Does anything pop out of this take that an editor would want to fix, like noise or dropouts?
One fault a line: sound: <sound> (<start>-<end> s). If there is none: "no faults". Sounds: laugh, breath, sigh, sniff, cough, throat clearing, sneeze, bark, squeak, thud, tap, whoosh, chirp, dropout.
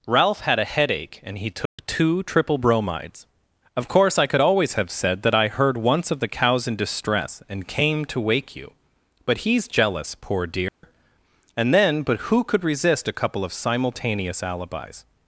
sound: dropout (1.7-1.8 s)
sound: dropout (10.7-10.8 s)